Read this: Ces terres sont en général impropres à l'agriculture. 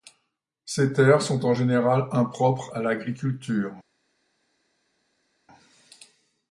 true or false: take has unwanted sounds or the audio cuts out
false